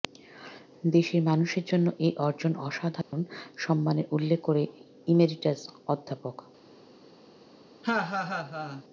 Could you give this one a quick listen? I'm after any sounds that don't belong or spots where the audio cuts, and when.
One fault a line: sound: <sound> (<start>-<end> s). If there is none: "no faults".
sound: dropout (3.0-3.1 s)
sound: laugh (7.8-8.8 s)